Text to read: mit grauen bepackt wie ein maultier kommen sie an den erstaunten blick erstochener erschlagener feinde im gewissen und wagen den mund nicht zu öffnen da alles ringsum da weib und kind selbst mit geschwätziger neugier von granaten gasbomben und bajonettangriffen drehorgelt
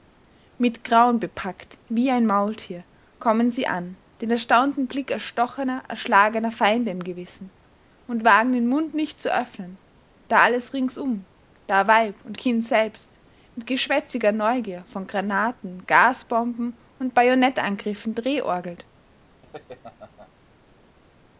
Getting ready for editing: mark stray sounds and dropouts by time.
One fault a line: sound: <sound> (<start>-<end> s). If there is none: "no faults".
sound: laugh (19.4-20.3 s)